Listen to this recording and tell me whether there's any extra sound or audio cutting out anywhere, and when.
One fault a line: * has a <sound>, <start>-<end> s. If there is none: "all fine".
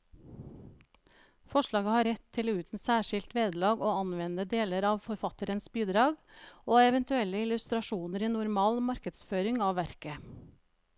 all fine